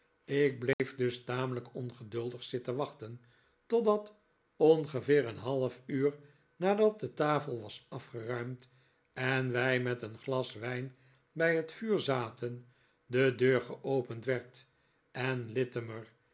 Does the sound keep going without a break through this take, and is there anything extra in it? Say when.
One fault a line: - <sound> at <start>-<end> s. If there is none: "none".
- dropout at 0.7-0.8 s